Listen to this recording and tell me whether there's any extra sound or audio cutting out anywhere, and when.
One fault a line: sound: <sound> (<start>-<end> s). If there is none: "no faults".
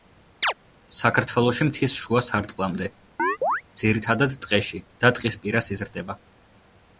sound: chirp (0.4-0.5 s)
sound: chirp (3.2-3.6 s)